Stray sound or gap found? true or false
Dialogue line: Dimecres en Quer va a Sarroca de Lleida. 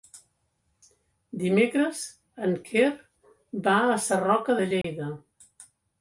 true